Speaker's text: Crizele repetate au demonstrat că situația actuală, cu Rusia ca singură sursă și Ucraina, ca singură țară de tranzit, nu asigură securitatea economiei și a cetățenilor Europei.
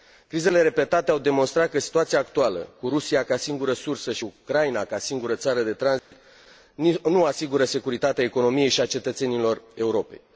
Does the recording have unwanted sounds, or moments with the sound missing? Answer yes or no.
yes